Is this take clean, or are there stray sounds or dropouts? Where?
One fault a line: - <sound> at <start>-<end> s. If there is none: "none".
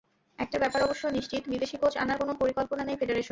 none